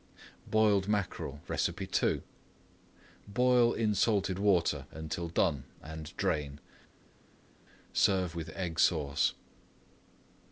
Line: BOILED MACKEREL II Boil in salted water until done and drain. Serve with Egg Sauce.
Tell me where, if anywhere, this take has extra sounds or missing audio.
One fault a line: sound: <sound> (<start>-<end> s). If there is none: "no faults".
no faults